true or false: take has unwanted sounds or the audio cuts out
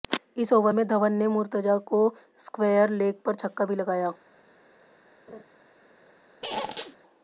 true